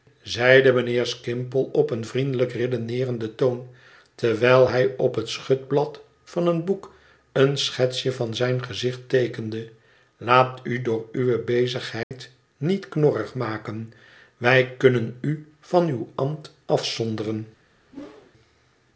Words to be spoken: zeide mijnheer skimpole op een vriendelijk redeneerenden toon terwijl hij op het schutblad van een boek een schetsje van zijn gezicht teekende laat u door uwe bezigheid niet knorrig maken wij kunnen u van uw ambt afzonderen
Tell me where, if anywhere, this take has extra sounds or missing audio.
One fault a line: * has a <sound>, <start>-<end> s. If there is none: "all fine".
* has a dropout, 12.0-12.1 s
* has a whoosh, 17.9-18.3 s